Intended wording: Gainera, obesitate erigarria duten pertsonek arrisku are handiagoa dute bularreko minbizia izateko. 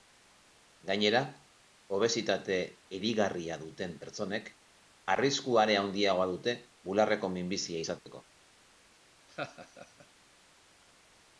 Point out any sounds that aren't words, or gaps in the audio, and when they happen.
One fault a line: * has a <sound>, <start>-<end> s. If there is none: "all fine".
* has a dropout, 8.0-8.1 s
* has a laugh, 9.3-10.1 s